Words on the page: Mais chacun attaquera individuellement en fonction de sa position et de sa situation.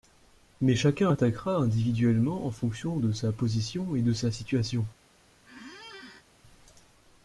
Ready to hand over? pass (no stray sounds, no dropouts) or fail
fail